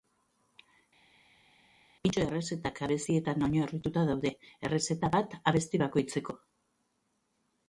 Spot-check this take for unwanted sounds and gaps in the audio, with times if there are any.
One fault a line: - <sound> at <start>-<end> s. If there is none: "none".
none